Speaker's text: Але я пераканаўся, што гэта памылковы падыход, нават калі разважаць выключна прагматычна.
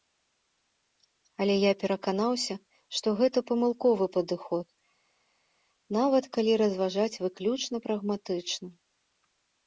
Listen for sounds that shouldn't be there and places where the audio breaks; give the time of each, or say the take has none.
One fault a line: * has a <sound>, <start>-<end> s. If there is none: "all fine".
all fine